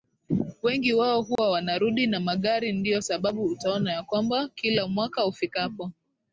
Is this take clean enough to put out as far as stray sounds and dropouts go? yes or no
no